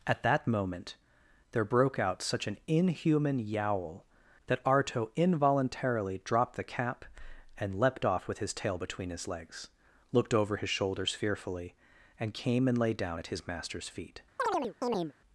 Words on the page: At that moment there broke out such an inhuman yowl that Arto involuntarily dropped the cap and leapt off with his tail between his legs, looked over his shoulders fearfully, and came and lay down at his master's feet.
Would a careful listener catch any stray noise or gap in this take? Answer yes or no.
yes